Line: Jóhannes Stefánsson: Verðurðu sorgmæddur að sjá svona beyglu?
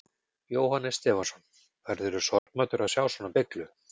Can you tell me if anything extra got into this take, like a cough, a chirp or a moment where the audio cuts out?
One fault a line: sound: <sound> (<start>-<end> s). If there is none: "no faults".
sound: dropout (2.4-2.5 s)